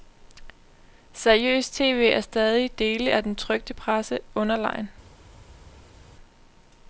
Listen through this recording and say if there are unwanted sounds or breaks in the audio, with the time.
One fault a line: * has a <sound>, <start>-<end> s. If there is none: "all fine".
all fine